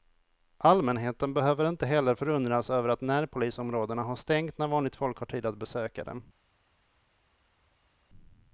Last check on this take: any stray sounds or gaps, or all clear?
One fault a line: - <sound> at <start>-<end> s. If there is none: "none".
none